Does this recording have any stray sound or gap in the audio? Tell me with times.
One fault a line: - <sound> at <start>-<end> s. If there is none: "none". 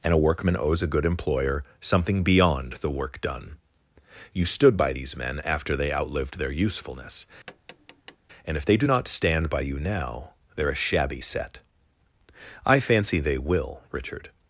- tap at 7.5-8.2 s